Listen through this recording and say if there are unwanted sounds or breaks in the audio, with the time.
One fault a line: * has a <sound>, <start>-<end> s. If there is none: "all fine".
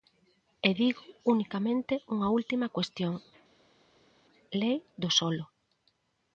all fine